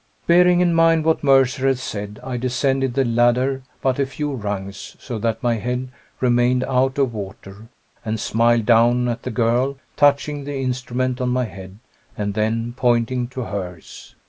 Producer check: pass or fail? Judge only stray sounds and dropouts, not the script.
pass